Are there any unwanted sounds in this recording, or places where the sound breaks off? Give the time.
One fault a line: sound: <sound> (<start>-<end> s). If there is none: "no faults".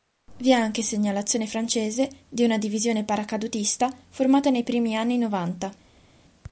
no faults